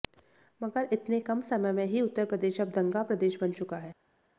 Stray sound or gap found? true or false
false